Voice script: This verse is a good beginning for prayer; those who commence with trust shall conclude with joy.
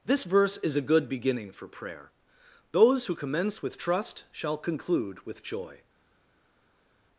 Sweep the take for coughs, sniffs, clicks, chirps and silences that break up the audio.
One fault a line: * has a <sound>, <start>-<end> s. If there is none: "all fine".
all fine